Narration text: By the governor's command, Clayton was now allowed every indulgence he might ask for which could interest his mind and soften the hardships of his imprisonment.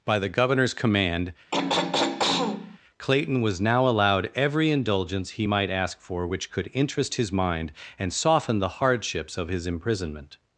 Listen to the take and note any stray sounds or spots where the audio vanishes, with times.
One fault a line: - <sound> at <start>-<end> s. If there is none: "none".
- throat clearing at 1.5-2.8 s